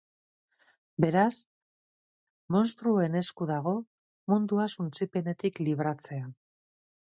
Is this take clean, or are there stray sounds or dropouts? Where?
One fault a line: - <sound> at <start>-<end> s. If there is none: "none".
none